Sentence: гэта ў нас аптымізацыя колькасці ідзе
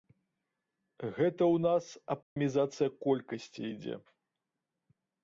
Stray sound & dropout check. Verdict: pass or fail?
fail